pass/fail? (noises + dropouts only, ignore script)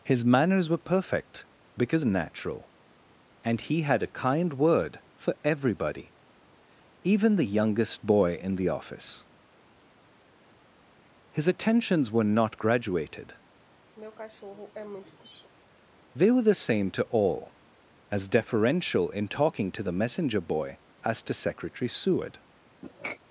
fail